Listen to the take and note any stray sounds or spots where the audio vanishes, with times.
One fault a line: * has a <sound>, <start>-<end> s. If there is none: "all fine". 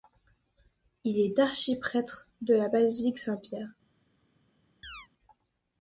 * has a chirp, 4.8-5.1 s